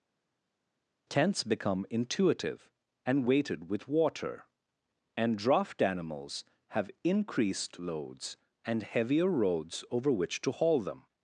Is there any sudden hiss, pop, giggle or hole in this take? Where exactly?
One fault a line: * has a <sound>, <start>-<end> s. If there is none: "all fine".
all fine